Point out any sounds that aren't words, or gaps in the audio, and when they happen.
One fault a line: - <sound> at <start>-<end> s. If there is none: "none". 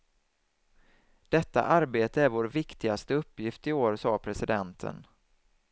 none